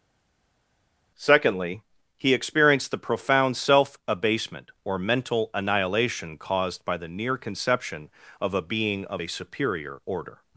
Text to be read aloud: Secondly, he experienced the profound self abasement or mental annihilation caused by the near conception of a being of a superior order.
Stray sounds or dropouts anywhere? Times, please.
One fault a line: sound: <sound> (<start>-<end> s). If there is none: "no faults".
no faults